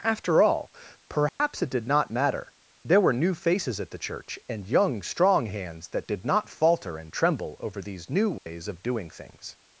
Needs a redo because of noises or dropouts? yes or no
yes